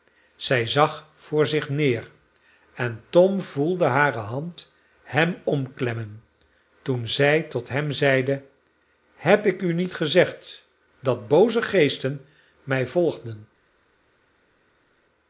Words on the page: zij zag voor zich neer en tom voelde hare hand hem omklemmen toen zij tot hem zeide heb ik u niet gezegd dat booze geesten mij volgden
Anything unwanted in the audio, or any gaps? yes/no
no